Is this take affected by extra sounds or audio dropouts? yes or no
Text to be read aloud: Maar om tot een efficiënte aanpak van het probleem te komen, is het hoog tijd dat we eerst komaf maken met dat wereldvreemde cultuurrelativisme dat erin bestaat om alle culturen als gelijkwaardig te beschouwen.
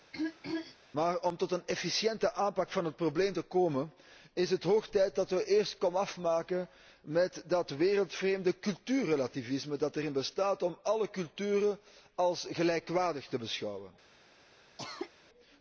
yes